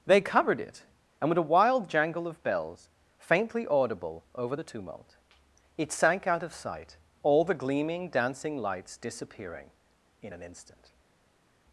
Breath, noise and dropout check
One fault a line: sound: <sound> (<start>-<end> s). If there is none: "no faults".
no faults